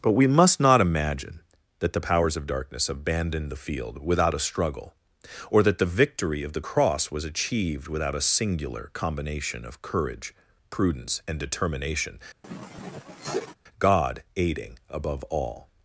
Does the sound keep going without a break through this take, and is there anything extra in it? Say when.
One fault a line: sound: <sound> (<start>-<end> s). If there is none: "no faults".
sound: sniff (12.4-13.6 s)